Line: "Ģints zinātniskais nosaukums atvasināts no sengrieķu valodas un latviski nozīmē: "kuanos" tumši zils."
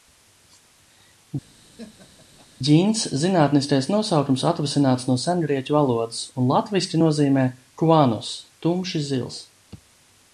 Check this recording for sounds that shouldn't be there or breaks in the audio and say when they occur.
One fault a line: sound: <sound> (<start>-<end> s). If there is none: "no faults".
sound: laugh (1.6-2.5 s)